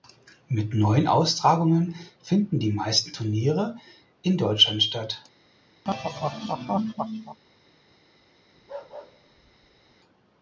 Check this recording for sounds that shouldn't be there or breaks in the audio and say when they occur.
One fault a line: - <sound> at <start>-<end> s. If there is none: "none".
- laugh at 5.8-7.4 s
- bark at 8.5-10.0 s